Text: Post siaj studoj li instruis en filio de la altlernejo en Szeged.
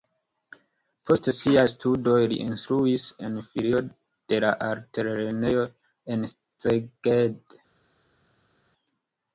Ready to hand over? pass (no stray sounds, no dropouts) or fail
pass